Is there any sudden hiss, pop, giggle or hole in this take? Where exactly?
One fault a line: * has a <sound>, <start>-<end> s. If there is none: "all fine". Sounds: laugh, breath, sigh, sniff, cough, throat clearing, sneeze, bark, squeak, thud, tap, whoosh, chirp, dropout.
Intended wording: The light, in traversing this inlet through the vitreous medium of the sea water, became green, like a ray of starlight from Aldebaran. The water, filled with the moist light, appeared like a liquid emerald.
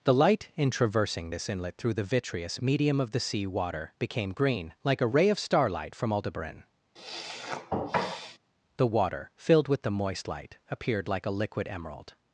* has a sniff, 7.0-8.4 s